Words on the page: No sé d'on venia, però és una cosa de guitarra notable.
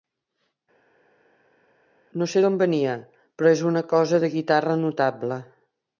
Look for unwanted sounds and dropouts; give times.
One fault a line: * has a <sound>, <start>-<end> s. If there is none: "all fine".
all fine